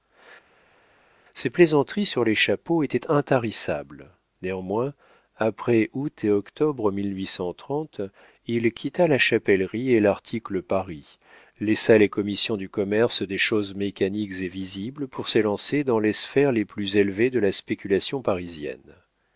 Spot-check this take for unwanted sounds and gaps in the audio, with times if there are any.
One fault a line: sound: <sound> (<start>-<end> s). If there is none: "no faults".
no faults